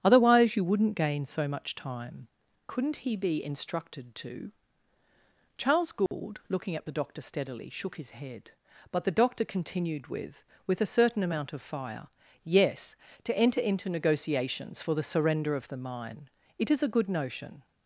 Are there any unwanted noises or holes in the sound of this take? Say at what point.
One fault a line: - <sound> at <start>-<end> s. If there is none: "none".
- dropout at 6.1-6.1 s